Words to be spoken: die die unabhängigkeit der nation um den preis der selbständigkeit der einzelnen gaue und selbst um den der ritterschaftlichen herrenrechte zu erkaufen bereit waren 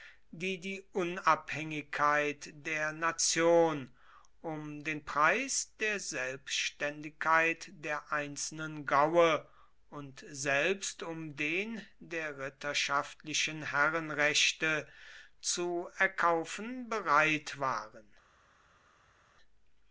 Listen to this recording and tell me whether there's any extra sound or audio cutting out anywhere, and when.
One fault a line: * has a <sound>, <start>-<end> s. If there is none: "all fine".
all fine